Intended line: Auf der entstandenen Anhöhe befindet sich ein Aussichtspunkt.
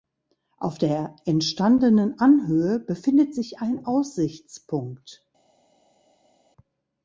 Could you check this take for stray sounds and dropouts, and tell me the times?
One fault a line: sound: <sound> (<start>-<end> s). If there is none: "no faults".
no faults